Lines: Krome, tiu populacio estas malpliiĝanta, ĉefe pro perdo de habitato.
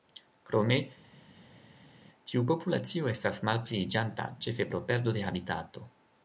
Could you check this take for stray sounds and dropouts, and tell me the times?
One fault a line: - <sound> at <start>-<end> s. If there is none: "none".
none